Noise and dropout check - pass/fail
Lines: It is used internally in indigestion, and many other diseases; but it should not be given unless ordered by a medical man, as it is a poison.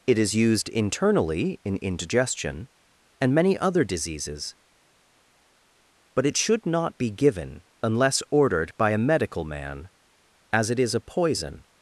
pass